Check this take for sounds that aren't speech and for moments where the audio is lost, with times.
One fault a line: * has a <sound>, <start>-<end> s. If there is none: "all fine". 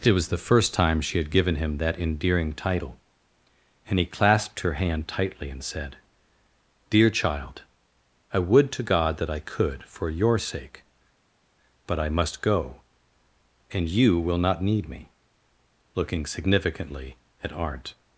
all fine